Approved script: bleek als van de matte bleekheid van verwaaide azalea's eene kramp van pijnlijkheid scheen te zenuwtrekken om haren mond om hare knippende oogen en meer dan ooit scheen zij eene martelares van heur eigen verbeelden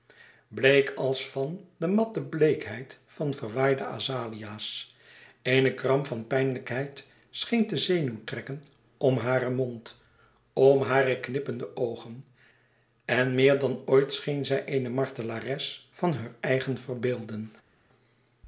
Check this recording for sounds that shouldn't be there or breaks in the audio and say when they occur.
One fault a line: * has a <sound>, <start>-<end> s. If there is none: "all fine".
all fine